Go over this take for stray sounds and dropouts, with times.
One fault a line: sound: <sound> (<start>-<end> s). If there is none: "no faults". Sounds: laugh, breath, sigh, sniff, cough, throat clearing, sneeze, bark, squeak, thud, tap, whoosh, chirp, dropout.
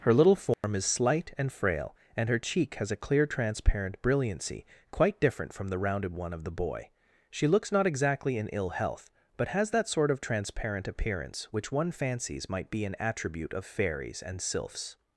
sound: dropout (0.5-0.6 s)